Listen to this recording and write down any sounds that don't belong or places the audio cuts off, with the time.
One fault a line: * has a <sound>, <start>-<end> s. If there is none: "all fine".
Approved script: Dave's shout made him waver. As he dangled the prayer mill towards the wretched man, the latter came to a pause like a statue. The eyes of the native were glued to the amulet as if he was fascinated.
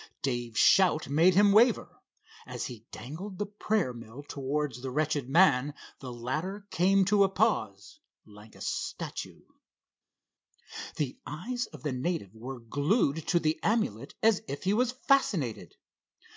all fine